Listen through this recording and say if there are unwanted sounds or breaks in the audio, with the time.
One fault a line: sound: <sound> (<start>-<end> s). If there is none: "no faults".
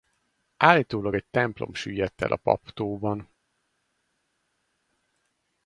no faults